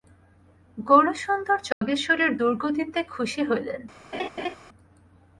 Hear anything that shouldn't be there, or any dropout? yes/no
yes